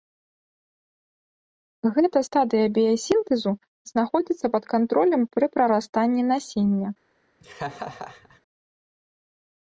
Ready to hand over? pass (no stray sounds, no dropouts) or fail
fail